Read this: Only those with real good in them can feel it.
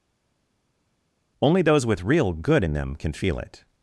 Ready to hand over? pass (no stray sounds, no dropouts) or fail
pass